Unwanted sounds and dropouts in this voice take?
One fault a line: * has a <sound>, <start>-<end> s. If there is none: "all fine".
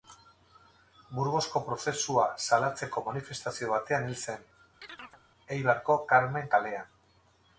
* has a chirp, 4.8-5.2 s